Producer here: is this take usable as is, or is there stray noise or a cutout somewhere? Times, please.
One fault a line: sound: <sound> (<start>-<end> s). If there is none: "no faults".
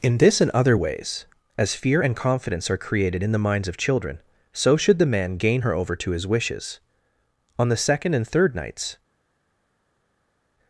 no faults